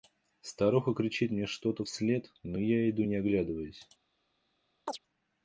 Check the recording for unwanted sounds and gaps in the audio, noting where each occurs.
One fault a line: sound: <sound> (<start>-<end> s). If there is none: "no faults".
sound: chirp (4.9-5.0 s)